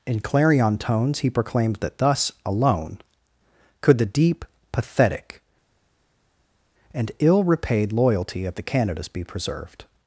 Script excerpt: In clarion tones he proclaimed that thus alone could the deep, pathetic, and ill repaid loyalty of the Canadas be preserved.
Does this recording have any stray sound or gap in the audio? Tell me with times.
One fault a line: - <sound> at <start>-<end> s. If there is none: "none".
none